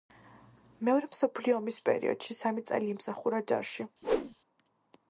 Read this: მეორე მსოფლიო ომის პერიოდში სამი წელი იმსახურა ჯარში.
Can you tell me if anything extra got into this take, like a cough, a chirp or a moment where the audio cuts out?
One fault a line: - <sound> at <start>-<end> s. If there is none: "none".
- whoosh at 4.0-4.4 s